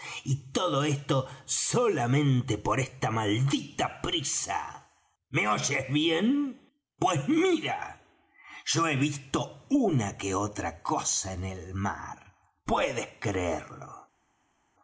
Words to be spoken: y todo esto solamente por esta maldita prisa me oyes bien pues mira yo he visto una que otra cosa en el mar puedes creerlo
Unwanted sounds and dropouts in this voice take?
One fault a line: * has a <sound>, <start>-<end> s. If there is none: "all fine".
all fine